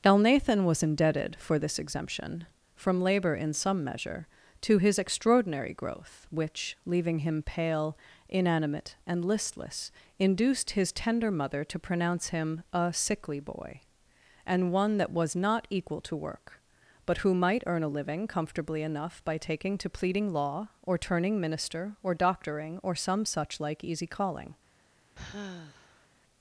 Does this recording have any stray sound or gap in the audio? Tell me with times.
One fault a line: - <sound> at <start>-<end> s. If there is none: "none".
- sigh at 25.1-26.1 s